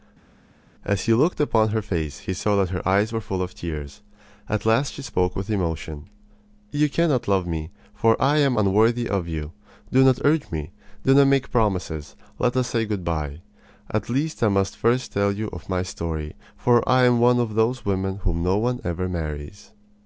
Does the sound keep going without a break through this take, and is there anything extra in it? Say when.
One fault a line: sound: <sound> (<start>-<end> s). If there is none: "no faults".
no faults